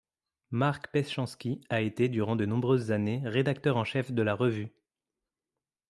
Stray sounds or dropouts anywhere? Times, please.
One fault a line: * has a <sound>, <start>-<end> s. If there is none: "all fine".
all fine